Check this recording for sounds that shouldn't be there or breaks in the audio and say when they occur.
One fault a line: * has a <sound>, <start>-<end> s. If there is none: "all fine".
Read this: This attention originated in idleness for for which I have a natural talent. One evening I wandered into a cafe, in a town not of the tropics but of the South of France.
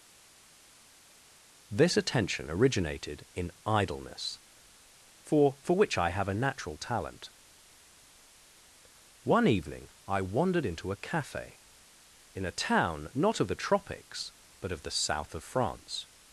all fine